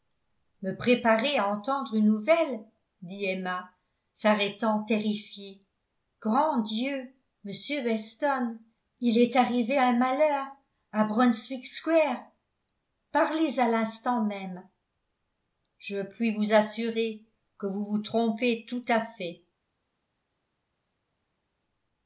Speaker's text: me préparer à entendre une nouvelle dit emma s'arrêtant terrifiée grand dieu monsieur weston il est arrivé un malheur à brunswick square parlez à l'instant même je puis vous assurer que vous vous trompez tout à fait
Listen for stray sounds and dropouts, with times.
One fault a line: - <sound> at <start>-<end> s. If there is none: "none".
none